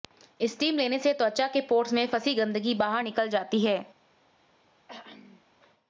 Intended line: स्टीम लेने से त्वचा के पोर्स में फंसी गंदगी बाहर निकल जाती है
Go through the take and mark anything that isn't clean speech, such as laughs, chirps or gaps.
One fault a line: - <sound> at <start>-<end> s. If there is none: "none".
- throat clearing at 4.9-5.4 s